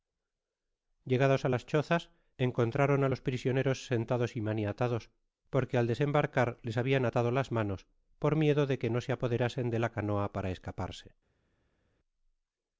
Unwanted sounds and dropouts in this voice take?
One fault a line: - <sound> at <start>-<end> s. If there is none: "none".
none